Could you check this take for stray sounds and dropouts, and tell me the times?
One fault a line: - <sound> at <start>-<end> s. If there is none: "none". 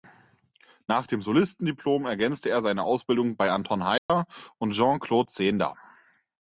- dropout at 4.0-4.1 s